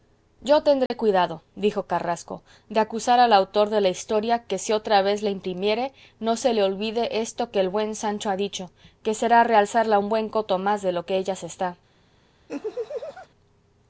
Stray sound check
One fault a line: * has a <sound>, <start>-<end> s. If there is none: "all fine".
* has a dropout, 0.9-0.9 s
* has a laugh, 12.5-13.3 s